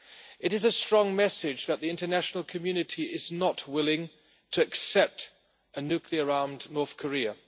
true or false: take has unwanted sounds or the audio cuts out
false